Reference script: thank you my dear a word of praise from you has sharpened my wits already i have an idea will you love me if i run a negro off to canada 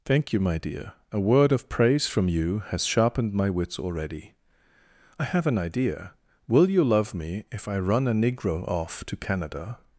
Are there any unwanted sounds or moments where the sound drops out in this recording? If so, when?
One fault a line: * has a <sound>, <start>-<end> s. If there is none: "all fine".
all fine